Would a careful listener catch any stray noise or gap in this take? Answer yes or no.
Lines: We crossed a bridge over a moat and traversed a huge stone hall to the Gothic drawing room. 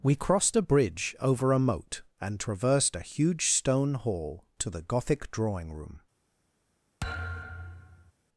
yes